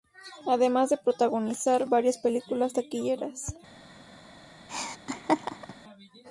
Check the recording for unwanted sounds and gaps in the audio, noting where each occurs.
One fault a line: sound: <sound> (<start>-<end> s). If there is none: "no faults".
sound: laugh (4.7-5.7 s)